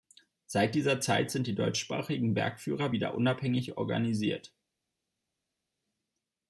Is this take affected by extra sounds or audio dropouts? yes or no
no